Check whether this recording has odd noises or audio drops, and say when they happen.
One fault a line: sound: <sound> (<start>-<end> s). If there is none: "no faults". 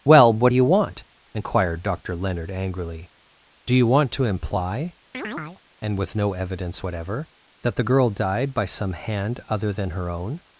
sound: chirp (5.1-5.6 s)